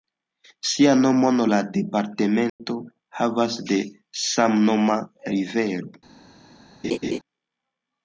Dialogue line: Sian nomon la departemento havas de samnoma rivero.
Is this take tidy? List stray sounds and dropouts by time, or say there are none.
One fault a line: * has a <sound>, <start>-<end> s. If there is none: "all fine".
* has a dropout, 2.5-2.6 s
* has a laugh, 6.8-7.2 s